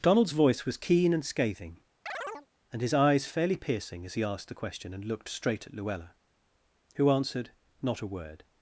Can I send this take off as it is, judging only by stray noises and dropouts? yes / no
no